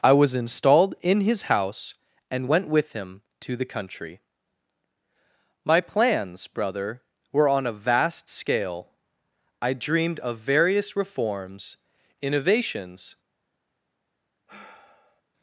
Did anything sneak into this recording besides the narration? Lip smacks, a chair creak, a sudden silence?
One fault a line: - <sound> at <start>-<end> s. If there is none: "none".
- sigh at 14.5-15.2 s